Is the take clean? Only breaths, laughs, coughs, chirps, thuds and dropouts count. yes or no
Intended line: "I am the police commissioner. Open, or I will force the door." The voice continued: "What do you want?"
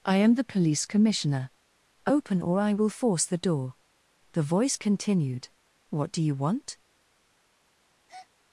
no